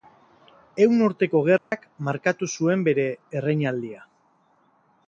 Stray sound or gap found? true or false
true